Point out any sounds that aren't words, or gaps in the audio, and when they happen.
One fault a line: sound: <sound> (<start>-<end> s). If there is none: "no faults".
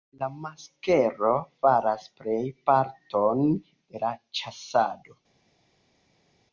no faults